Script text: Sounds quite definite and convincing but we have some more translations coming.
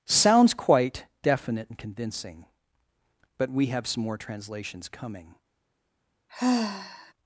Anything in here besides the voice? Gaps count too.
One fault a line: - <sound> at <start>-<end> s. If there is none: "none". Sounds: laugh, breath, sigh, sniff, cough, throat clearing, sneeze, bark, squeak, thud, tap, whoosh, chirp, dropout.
- sigh at 6.3-7.1 s